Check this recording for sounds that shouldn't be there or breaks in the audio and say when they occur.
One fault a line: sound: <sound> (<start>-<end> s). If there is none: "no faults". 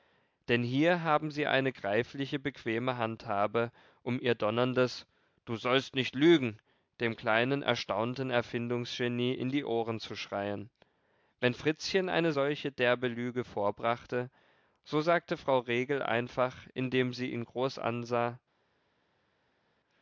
no faults